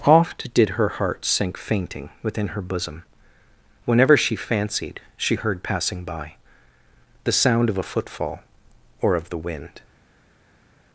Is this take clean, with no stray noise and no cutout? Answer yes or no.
yes